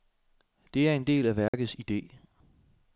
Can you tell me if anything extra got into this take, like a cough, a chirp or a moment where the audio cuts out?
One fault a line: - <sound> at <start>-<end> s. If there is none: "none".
- dropout at 1.5-1.5 s